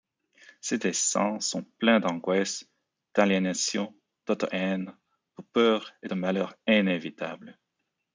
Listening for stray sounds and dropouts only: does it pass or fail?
pass